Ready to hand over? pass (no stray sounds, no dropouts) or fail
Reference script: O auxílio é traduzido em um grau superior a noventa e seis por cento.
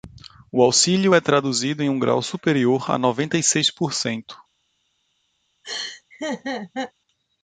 fail